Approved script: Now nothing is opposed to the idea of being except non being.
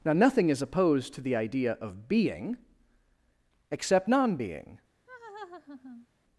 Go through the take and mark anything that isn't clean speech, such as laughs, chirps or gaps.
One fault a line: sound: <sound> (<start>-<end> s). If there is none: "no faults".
sound: laugh (5.1-6.1 s)